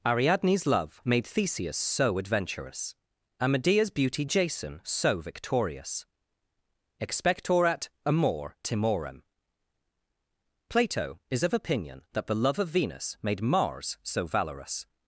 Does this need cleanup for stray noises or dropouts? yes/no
no